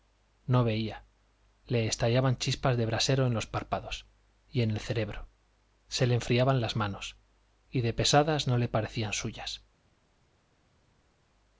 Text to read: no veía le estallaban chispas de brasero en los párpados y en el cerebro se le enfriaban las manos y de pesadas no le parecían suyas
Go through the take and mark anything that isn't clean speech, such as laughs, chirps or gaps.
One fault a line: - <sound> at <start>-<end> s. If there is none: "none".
none